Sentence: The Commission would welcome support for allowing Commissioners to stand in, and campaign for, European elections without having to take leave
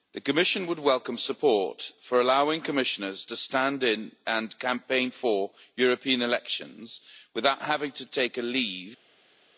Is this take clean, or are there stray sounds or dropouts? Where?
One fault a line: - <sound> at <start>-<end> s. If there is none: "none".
none